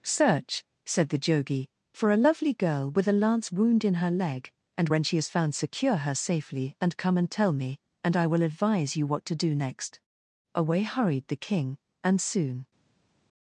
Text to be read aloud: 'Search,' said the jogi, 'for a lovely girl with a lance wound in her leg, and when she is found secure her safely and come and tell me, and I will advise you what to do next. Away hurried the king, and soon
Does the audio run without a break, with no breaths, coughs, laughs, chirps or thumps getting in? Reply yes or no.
yes